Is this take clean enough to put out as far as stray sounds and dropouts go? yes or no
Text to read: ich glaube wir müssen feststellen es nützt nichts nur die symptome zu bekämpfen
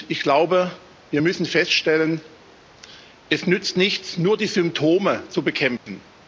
no